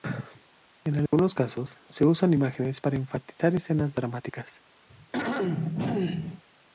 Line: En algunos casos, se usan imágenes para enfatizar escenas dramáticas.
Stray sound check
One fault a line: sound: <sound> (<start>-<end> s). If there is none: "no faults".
sound: dropout (1.1-1.1 s)
sound: throat clearing (4.9-6.4 s)